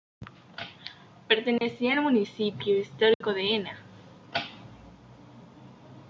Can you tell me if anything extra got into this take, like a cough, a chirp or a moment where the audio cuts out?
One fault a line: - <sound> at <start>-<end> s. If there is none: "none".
- dropout at 1.6-1.6 s
- dropout at 3.1-3.2 s